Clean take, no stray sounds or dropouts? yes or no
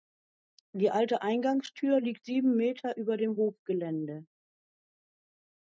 yes